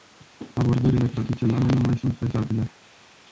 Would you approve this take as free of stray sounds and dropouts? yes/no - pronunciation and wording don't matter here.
yes